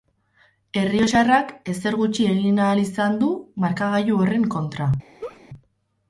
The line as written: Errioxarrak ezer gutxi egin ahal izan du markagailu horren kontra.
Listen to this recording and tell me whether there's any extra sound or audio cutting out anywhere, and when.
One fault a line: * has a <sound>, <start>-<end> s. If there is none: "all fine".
* has a laugh, 5.2-5.4 s